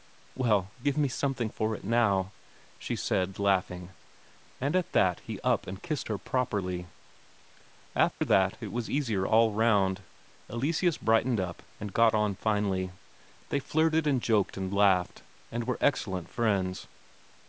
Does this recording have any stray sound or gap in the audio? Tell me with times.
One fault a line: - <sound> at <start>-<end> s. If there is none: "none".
- dropout at 8.1-8.2 s